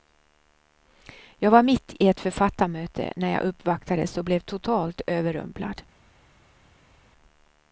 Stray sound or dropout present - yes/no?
no